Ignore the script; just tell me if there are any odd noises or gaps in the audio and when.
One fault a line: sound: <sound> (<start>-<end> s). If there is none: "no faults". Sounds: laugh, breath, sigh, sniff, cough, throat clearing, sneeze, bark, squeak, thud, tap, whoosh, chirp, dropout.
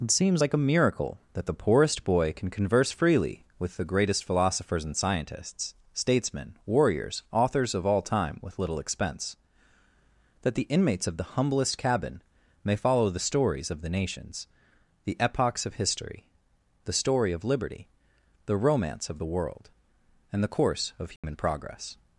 sound: dropout (21.2-21.2 s)